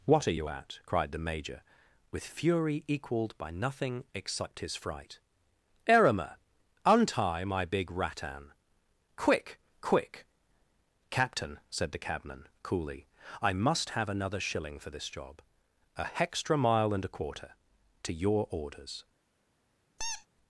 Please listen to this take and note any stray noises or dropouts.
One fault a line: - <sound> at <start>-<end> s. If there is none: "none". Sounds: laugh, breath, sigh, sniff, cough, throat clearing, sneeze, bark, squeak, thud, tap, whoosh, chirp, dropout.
- squeak at 20.0-20.3 s